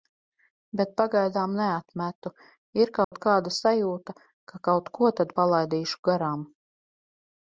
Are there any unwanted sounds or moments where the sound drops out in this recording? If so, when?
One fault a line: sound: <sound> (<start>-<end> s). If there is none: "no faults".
sound: dropout (3.0-3.1 s)